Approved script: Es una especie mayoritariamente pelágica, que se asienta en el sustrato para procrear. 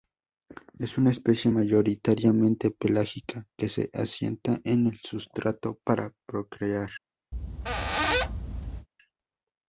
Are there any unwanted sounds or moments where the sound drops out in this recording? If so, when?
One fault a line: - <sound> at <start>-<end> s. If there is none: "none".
- squeak at 7.3-8.9 s